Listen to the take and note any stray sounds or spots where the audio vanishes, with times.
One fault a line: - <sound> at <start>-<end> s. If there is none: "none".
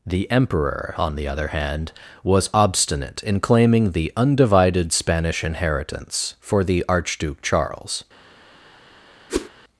- whoosh at 9.3-9.5 s